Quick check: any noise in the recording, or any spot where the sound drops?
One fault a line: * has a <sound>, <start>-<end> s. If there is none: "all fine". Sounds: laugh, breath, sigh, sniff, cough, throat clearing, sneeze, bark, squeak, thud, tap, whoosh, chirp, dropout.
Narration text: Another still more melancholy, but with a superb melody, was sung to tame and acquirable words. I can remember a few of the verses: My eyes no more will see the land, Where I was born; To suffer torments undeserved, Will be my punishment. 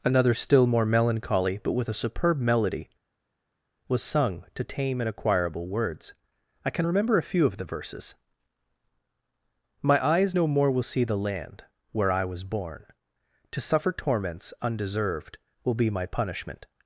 all fine